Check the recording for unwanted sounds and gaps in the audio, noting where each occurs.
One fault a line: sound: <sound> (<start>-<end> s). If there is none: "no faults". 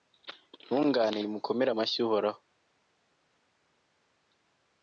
no faults